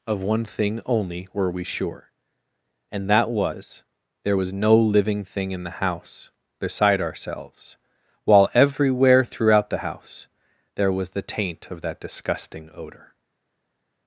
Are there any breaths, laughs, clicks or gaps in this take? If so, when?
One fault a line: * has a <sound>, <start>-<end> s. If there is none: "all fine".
all fine